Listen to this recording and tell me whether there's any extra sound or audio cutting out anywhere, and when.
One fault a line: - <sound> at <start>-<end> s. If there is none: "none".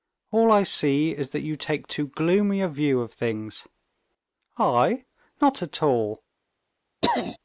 - throat clearing at 7.0-7.4 s